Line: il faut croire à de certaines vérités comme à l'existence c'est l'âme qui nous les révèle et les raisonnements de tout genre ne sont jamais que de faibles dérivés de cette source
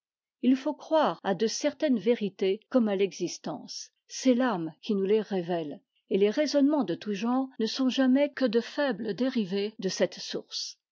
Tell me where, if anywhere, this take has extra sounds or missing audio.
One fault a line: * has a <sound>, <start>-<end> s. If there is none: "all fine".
all fine